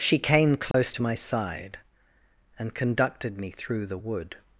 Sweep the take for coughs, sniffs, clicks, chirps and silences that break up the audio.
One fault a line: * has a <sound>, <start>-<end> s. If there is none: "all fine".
* has a dropout, 0.7-0.7 s